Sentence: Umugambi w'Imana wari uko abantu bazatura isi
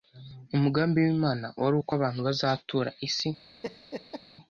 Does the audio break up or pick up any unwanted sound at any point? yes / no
yes